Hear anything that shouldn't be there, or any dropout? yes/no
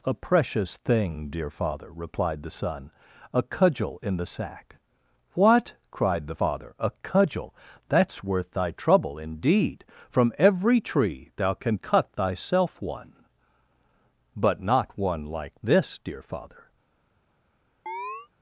yes